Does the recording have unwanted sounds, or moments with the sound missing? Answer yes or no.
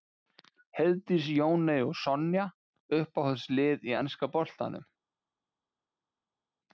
no